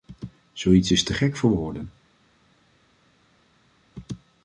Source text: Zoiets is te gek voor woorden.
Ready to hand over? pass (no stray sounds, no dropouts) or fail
pass